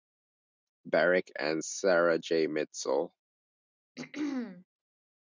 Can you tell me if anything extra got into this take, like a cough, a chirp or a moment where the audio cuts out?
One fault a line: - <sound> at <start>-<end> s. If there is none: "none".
- throat clearing at 4.0-4.7 s